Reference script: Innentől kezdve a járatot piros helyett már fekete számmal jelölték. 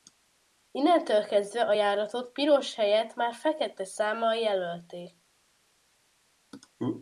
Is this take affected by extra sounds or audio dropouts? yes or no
no